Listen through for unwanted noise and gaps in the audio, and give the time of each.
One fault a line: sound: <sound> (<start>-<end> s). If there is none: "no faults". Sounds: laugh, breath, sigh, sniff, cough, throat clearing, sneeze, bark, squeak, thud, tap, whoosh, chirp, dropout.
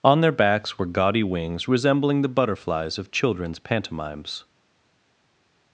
no faults